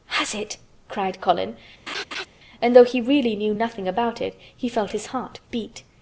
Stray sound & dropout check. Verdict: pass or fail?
fail